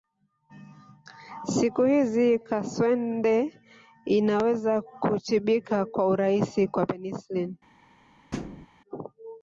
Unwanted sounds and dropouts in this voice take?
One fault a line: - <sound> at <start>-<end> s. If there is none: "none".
- thud at 8.3-8.7 s